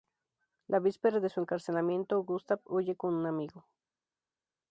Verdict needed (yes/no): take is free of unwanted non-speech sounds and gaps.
yes